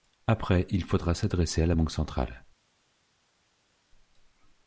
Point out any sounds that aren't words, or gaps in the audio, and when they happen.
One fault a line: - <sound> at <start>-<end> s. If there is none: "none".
none